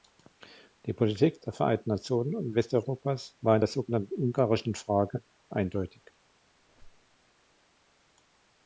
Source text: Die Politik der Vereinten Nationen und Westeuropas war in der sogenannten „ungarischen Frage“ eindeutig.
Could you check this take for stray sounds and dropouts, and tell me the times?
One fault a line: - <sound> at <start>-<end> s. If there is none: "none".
- squeak at 6.6-7.2 s